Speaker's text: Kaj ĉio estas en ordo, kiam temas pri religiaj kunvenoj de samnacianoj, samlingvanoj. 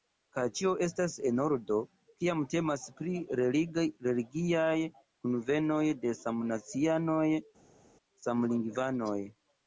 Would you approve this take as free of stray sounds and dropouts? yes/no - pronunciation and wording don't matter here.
yes